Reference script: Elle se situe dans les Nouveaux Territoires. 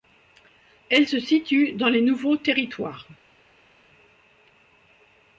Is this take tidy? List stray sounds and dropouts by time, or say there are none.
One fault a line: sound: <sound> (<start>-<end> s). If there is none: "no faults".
no faults